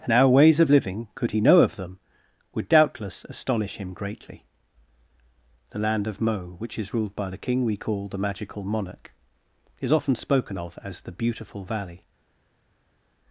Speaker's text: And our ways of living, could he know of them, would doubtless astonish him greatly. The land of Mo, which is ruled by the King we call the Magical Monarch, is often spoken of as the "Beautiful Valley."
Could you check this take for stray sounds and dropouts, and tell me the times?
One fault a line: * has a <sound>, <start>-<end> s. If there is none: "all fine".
all fine